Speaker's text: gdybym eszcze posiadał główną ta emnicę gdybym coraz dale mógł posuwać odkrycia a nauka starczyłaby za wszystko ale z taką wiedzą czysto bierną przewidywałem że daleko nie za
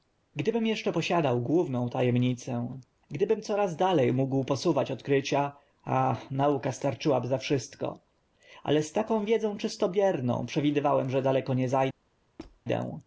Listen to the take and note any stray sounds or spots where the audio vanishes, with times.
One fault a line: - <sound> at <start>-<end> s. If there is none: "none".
- squeak at 12.4-12.6 s